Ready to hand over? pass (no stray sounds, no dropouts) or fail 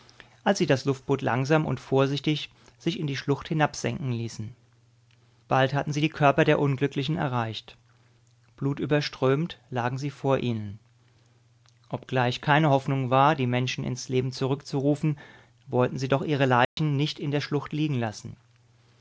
fail